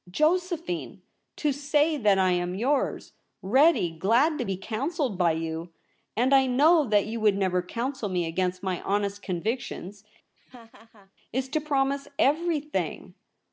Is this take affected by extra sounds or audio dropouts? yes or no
yes